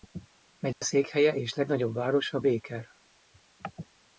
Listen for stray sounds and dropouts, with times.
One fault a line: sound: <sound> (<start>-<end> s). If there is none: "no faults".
sound: dropout (0.7-0.8 s)